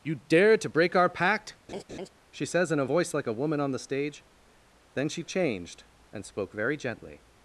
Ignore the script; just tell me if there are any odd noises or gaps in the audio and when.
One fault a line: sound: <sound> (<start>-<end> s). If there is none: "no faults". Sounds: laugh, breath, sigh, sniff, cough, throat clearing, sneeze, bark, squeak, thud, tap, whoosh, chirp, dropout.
sound: laugh (1.7-2.1 s)